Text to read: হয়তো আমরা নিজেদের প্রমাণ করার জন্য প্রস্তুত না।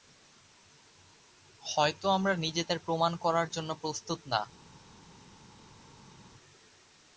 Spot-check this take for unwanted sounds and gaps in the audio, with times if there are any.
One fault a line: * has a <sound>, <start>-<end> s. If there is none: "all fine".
all fine